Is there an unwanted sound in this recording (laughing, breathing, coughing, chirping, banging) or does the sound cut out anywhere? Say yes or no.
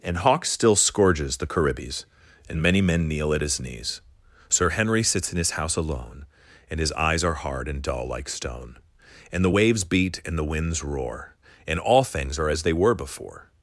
no